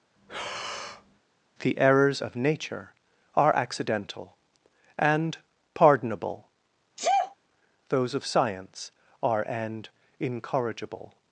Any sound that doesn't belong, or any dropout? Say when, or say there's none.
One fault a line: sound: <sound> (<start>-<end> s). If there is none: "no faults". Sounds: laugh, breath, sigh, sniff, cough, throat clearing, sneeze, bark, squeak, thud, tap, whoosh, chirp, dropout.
sound: breath (0.2-1.2 s)
sound: sneeze (7.0-7.4 s)